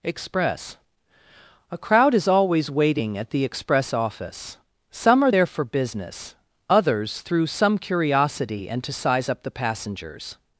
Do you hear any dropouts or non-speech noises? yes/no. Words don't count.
no